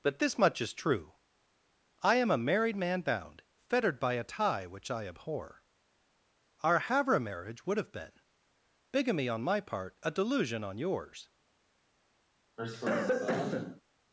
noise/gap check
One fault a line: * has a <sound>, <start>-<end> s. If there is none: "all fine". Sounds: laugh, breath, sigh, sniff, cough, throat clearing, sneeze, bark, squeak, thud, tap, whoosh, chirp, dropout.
* has a cough, 12.6-13.8 s